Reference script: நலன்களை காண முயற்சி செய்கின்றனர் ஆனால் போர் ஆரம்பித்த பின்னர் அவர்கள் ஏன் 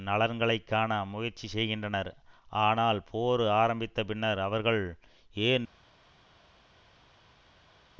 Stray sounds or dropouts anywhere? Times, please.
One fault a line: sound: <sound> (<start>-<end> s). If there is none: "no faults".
no faults